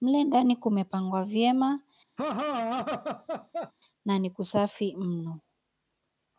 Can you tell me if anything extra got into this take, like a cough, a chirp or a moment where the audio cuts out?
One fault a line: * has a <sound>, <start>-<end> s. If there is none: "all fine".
* has a laugh, 2.2-3.7 s